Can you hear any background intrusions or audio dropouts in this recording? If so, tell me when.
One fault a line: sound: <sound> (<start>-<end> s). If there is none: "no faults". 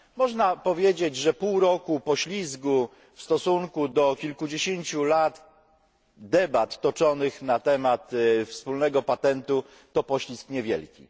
no faults